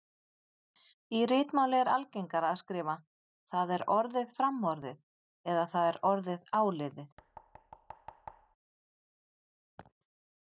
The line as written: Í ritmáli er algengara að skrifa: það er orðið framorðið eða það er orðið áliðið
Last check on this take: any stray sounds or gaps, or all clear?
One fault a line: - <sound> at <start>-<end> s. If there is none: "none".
- thud at 7.2-8.6 s
- laugh at 9.8-9.9 s